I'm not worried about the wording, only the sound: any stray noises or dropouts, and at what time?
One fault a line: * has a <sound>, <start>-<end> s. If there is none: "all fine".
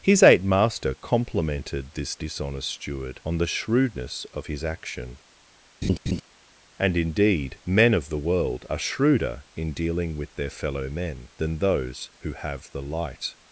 * has a laugh, 5.8-6.2 s